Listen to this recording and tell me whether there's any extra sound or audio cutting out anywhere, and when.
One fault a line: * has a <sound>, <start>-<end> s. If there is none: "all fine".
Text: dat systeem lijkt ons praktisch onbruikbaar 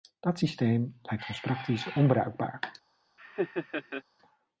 * has a laugh, 3.2-4.0 s